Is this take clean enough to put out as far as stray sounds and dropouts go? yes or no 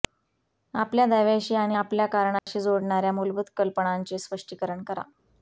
no